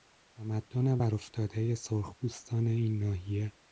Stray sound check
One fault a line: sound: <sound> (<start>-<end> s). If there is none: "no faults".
no faults